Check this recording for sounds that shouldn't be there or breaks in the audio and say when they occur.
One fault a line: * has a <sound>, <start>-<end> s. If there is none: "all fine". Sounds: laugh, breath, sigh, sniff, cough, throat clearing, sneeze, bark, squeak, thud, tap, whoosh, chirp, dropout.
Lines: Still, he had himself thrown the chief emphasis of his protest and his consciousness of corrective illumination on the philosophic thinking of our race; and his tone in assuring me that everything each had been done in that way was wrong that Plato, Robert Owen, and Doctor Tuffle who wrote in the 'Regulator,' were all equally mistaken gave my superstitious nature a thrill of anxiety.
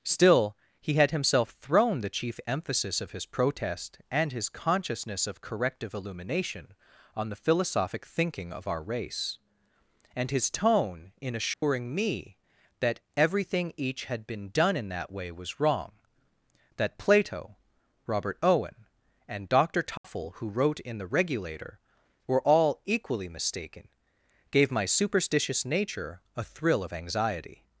* has a dropout, 11.5-11.6 s
* has a dropout, 20.0-20.0 s